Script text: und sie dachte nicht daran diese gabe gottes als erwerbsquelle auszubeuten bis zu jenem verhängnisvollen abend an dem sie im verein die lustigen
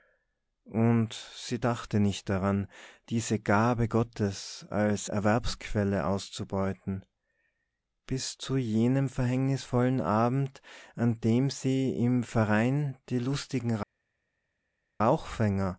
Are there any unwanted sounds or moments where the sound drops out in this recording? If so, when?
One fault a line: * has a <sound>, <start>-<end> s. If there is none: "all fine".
all fine